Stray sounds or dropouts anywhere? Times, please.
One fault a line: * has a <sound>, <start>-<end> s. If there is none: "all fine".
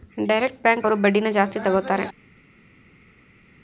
all fine